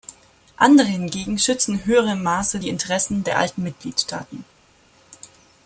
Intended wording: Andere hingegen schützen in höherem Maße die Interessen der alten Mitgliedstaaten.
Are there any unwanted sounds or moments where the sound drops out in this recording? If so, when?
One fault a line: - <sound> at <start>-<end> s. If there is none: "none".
none